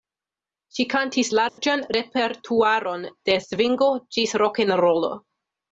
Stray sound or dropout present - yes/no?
yes